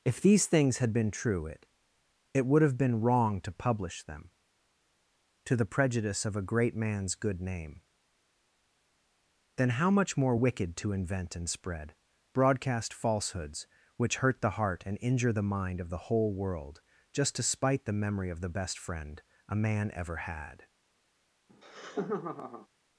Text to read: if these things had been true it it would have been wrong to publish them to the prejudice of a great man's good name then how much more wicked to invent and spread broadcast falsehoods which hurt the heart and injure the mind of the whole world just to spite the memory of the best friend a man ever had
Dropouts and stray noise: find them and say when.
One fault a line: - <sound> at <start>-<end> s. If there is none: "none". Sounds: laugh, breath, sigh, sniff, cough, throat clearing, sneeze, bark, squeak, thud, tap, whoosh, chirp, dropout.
- laugh at 21.5-22.7 s